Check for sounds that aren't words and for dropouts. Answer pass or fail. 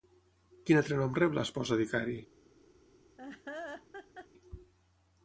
fail